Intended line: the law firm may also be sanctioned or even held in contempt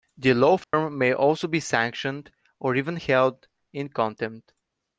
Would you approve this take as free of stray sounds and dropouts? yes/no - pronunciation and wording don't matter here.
no